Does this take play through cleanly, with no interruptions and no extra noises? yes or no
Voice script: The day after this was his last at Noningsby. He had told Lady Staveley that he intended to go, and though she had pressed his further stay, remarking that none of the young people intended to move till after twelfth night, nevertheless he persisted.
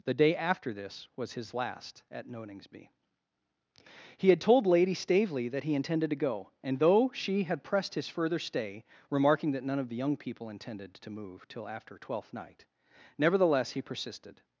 yes